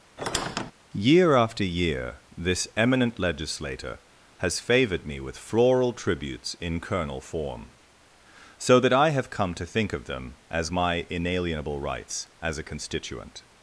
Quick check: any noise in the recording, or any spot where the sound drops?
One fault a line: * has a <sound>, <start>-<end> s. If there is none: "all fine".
* has a squeak, 0.2-0.7 s